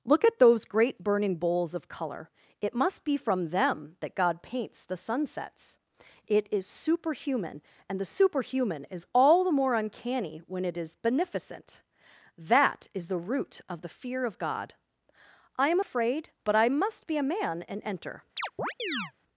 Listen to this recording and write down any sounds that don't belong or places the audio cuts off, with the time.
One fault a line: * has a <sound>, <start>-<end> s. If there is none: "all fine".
* has a chirp, 18.4-19.1 s